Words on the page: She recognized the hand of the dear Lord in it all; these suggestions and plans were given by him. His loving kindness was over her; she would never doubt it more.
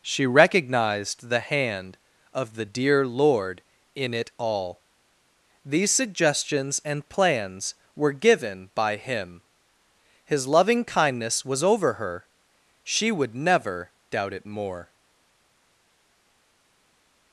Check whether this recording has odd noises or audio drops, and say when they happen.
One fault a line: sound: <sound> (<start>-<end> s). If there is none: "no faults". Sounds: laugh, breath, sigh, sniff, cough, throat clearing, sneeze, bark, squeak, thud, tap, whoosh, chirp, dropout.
no faults